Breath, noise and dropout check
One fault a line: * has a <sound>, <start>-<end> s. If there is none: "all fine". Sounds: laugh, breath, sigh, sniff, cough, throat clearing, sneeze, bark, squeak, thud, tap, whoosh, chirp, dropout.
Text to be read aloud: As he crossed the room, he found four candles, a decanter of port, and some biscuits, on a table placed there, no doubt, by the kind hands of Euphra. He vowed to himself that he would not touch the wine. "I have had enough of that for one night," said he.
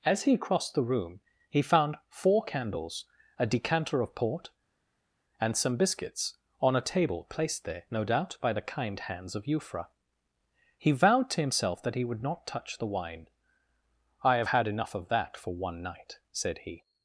all fine